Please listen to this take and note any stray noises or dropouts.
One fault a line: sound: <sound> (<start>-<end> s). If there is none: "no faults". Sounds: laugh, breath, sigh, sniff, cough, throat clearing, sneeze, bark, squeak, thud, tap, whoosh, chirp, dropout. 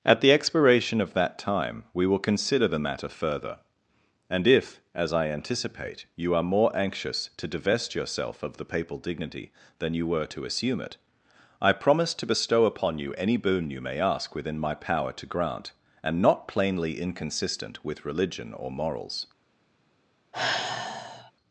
sound: sigh (20.3-21.3 s)